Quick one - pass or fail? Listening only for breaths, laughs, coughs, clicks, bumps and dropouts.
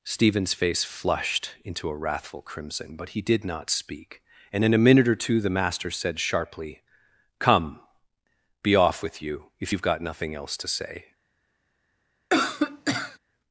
fail